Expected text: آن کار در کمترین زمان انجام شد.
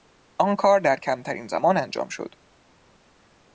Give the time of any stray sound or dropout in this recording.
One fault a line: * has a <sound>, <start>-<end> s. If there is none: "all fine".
all fine